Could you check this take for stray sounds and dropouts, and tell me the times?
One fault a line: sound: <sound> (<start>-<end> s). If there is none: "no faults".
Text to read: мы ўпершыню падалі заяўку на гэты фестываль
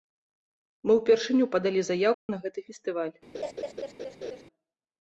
sound: dropout (2.1-2.3 s)
sound: laugh (3.3-4.4 s)